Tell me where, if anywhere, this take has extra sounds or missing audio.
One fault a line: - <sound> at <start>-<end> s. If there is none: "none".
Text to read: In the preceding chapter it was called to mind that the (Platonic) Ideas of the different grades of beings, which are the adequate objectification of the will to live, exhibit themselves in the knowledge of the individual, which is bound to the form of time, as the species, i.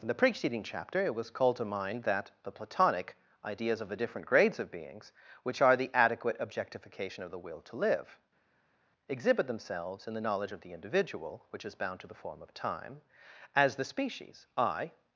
none